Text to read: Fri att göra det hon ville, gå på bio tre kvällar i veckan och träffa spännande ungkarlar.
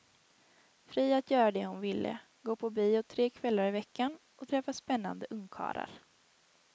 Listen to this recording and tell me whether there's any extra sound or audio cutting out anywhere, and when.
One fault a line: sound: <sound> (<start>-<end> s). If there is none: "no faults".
no faults